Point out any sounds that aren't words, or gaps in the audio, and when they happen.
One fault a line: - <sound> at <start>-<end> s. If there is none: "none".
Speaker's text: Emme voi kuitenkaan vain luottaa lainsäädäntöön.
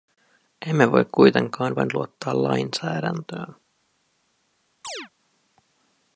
- chirp at 4.8-5.1 s